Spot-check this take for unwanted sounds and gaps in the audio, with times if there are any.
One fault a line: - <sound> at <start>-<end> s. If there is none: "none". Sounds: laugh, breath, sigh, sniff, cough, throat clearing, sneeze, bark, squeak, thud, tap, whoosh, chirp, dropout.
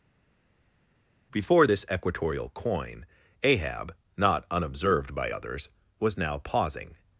none